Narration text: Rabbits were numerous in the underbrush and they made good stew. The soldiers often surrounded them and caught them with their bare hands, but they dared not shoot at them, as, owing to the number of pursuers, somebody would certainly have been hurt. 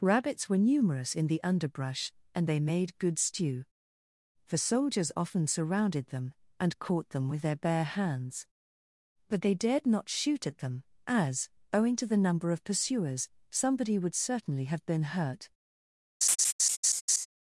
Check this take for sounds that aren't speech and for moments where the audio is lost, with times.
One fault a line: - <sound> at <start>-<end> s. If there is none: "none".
- laugh at 16.2-17.3 s